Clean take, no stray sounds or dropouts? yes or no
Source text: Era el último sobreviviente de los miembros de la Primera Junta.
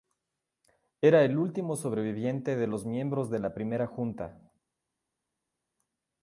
yes